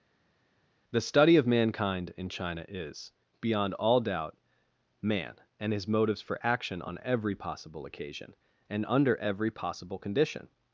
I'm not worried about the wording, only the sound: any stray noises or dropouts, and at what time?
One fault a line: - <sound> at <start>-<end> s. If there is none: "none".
none